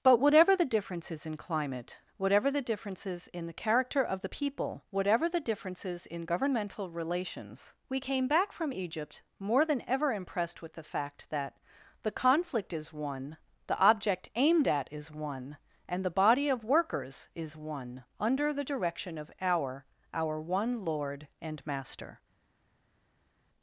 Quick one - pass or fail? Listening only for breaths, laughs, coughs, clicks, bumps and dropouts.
pass